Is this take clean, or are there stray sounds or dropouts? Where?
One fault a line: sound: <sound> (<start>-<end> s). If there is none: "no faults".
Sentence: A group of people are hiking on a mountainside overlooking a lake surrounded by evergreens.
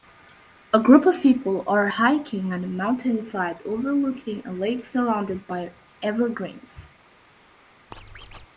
sound: squeak (7.9-8.5 s)